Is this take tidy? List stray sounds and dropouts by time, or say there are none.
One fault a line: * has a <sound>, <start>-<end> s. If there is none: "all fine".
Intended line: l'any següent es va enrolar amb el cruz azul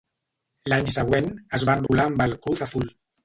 * has a dropout, 1.9-1.9 s